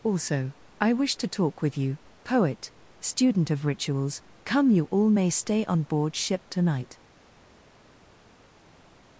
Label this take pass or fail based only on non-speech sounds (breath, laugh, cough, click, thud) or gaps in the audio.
pass